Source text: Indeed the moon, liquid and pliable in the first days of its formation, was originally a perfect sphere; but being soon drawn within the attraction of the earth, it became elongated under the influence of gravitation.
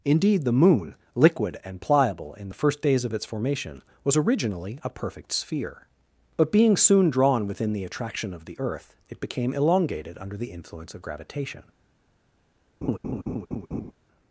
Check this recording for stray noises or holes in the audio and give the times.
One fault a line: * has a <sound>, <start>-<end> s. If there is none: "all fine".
* has a laugh, 12.8-13.9 s